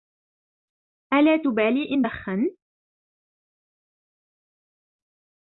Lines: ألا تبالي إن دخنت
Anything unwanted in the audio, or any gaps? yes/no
no